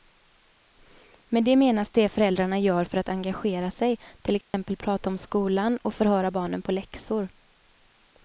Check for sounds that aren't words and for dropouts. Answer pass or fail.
fail